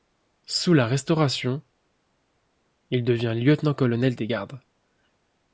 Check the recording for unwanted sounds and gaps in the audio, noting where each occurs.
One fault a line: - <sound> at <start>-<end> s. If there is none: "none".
none